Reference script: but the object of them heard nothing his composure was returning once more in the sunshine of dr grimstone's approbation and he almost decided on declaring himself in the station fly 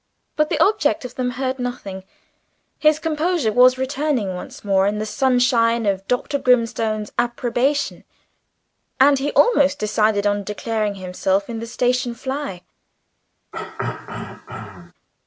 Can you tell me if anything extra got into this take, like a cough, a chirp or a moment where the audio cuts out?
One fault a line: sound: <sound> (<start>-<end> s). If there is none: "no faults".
sound: throat clearing (13.5-14.9 s)